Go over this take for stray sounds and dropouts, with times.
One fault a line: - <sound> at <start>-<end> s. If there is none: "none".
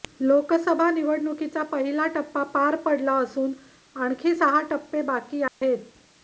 - dropout at 5.5-5.6 s